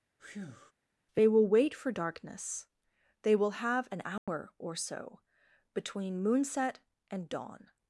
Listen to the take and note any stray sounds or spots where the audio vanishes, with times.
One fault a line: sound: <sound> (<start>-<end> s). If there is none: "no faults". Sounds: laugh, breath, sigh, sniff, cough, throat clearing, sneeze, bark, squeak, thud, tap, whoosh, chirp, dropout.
sound: breath (0.2-0.7 s)
sound: dropout (4.2-4.3 s)